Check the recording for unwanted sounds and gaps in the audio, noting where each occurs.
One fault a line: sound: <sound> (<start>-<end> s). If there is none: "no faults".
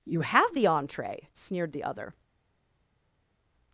no faults